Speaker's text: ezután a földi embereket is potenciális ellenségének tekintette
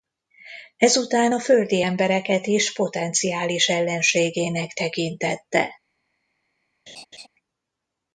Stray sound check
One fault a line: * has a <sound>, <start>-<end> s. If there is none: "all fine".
* has a laugh, 6.9-7.3 s